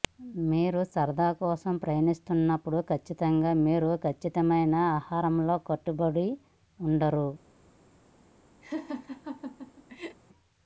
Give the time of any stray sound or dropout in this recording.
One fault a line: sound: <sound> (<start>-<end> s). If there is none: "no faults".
sound: laugh (8.6-10.2 s)